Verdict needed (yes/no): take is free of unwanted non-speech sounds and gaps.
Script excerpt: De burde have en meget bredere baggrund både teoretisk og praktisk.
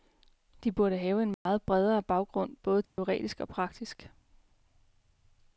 no